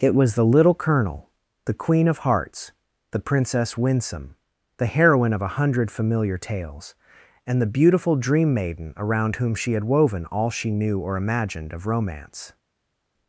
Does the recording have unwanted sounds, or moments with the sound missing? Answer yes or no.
no